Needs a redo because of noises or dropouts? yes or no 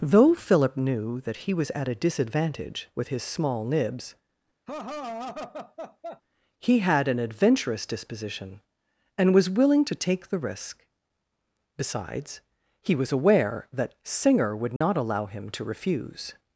yes